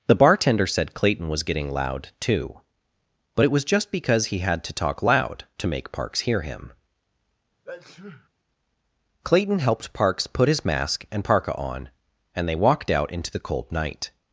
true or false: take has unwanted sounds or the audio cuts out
true